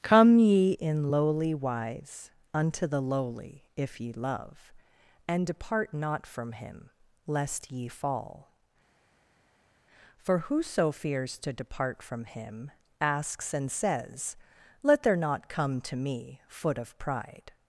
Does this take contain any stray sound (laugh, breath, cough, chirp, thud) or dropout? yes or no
no